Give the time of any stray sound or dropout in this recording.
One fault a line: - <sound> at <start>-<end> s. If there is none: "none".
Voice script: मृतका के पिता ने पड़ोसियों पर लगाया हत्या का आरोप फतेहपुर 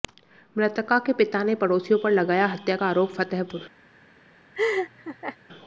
- laugh at 4.5-5.4 s